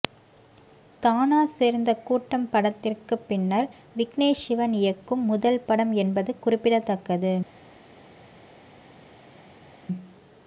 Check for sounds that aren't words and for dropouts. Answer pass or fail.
pass